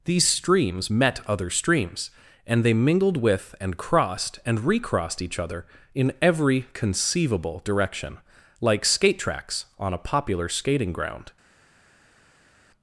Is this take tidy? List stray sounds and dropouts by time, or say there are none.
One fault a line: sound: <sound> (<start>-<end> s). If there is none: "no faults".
no faults